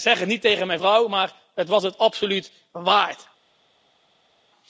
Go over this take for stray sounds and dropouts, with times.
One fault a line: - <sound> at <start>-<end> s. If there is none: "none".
none